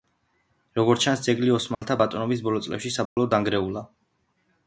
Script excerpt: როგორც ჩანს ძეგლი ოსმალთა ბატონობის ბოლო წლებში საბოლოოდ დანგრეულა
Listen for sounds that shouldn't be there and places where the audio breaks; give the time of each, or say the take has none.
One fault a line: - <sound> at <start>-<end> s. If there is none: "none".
- dropout at 1.7-1.8 s
- dropout at 3.1-3.2 s